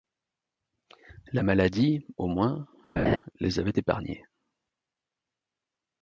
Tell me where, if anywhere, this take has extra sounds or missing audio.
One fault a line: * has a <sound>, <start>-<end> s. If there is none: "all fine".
* has a laugh, 3.0-3.2 s